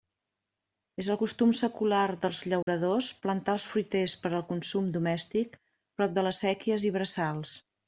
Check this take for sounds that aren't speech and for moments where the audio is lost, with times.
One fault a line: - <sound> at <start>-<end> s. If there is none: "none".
- dropout at 2.6-2.7 s